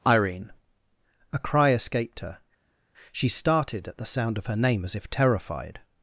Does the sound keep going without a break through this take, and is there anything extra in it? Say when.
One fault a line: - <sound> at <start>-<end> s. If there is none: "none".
none